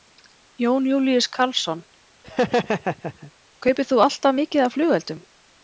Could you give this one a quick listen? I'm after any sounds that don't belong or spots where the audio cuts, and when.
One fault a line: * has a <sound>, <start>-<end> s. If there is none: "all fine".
* has a laugh, 2.2-3.3 s